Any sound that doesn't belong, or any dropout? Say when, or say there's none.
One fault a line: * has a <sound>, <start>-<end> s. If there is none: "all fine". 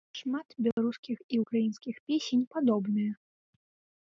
* has a dropout, 0.7-0.8 s